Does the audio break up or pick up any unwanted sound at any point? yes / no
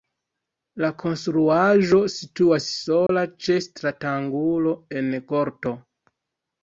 yes